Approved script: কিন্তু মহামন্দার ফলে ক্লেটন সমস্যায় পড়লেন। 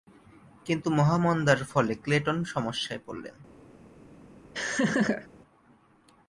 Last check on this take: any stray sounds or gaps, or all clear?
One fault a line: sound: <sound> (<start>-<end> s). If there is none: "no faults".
sound: laugh (4.5-5.3 s)